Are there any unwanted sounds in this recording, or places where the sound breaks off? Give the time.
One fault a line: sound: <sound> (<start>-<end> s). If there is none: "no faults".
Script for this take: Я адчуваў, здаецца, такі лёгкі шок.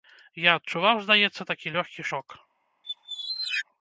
sound: squeak (2.8-3.6 s)